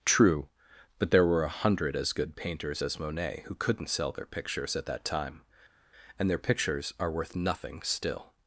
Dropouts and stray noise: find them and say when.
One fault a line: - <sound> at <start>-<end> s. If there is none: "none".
none